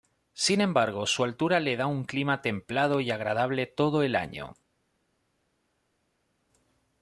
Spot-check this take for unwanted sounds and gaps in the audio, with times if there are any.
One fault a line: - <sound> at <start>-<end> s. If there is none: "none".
none